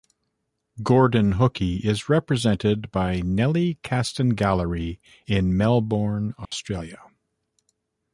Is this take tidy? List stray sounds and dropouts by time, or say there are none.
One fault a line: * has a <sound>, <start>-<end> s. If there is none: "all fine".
* has a dropout, 6.4-6.5 s